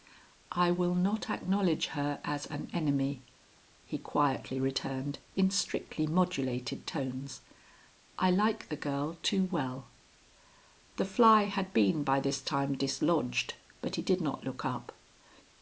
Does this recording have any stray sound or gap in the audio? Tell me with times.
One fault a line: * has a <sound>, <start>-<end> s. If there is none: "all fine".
all fine